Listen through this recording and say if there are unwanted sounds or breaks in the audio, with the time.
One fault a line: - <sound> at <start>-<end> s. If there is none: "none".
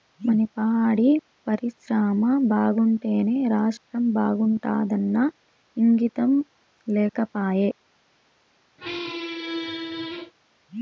- squeak at 8.8-10.3 s